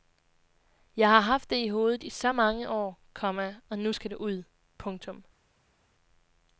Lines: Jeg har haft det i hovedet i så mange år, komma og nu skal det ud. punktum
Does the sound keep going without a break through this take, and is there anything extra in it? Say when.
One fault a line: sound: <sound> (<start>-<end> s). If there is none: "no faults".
no faults